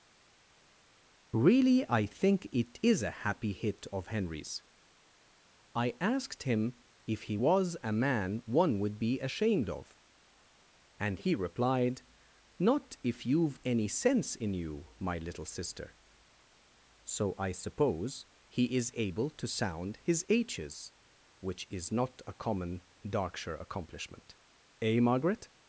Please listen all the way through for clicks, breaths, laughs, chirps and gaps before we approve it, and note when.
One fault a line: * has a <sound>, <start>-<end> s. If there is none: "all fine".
all fine